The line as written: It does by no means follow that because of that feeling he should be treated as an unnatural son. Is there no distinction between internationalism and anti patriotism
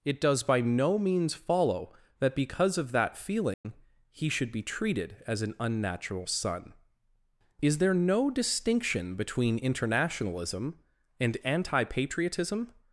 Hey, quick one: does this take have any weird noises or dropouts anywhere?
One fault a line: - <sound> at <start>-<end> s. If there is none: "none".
- dropout at 3.5-3.6 s